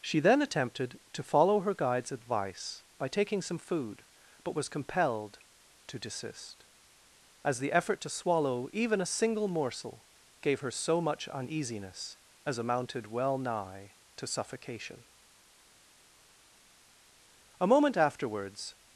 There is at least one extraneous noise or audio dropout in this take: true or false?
false